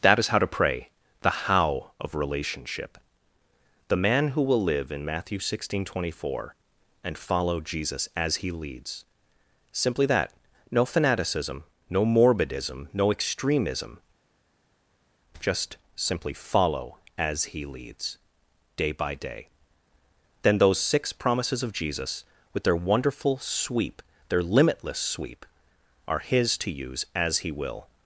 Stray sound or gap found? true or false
false